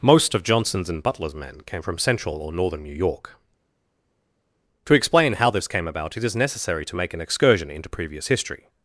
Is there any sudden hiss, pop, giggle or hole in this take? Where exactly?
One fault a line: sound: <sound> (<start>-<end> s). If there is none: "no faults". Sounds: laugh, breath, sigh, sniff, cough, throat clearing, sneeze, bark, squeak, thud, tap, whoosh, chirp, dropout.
no faults